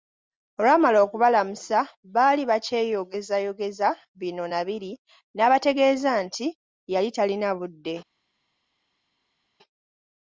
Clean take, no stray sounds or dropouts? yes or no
yes